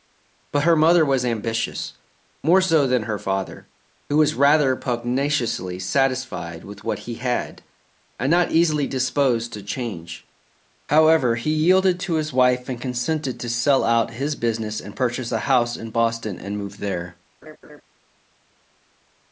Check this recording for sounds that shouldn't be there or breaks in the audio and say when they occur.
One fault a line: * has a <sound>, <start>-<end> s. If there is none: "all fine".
* has a laugh, 17.4-17.8 s